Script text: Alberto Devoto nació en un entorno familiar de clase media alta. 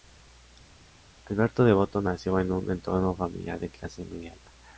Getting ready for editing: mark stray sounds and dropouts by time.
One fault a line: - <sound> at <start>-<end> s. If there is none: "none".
none